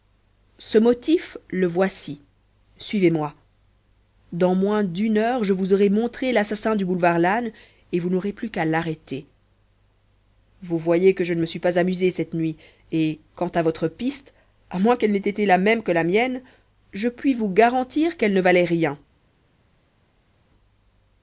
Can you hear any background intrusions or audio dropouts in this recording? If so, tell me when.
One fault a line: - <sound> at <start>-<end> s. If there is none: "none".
none